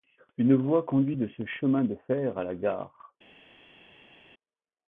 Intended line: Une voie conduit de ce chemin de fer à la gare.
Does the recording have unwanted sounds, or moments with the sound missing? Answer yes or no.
no